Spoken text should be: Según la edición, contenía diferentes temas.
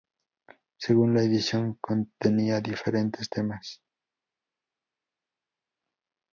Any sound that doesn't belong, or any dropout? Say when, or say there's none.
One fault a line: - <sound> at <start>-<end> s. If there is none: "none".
none